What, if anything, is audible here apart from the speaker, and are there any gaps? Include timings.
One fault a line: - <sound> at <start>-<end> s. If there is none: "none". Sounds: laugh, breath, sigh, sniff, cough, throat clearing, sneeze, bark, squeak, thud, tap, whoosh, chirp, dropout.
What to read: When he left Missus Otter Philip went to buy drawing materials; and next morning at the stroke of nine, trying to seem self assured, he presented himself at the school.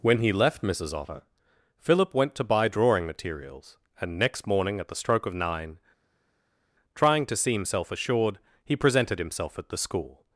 none